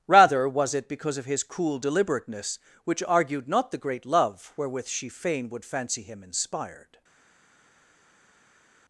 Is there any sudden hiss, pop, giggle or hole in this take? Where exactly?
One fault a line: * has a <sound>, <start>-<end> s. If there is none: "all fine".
all fine